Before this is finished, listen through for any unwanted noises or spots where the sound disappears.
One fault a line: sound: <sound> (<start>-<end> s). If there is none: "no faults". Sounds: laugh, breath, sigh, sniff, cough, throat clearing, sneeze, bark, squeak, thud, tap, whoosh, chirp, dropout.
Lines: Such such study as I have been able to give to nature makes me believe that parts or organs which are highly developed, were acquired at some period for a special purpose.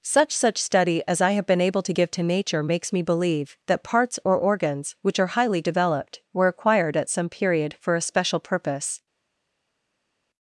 no faults